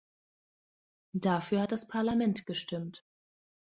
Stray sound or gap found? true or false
false